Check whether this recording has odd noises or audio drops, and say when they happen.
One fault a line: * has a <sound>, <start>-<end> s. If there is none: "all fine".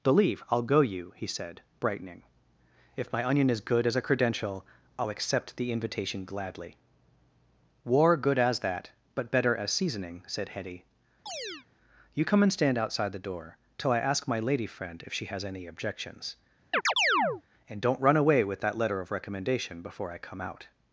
* has a chirp, 11.3-11.7 s
* has a chirp, 16.7-17.4 s